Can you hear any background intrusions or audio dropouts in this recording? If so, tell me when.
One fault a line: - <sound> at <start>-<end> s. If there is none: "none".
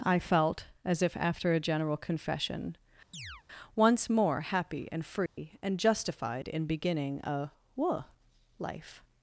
- chirp at 3.1-3.4 s
- dropout at 5.3-5.4 s